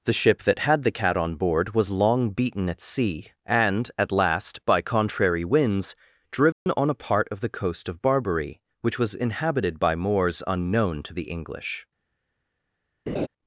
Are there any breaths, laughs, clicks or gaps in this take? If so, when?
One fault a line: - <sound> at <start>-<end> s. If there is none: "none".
- dropout at 6.5-6.7 s
- laugh at 13.1-13.3 s